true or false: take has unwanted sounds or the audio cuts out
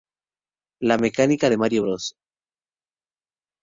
false